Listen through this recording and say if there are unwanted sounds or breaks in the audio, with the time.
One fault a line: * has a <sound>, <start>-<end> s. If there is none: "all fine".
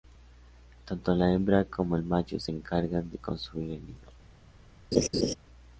* has a laugh, 4.9-5.3 s